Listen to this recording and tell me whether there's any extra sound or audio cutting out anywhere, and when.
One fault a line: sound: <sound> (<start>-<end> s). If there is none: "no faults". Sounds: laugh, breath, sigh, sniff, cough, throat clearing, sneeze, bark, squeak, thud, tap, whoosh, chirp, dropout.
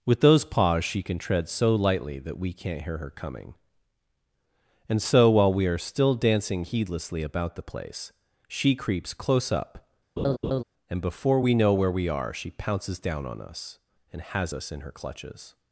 sound: laugh (10.2-10.6 s)